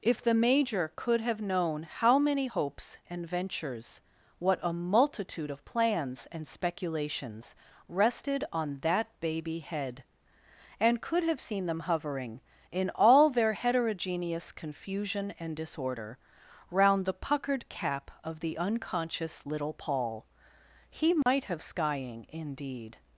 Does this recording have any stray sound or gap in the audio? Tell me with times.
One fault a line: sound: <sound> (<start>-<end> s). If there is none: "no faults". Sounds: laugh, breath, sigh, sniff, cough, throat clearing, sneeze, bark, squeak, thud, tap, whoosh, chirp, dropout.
sound: dropout (21.2-21.3 s)